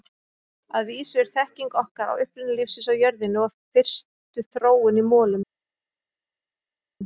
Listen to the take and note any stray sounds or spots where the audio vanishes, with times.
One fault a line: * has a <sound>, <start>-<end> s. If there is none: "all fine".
all fine